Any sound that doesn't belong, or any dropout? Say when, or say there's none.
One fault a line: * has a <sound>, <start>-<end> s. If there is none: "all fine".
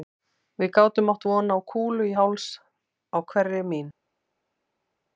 all fine